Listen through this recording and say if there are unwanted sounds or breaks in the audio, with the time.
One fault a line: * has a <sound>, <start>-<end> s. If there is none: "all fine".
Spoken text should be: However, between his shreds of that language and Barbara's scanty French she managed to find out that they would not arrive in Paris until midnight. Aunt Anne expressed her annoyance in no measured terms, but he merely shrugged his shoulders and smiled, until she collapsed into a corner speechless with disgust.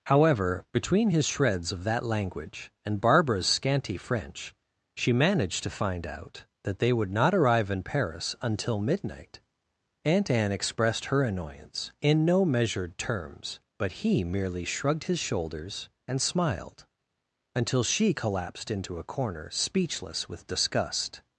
all fine